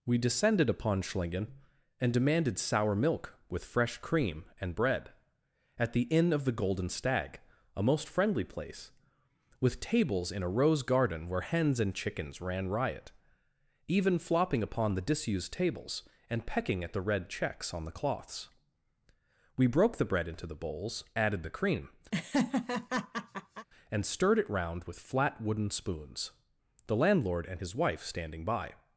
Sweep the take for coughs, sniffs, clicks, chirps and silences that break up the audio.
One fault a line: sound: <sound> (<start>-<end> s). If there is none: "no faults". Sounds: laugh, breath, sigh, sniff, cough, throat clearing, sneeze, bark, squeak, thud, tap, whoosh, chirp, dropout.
sound: laugh (22.1-23.7 s)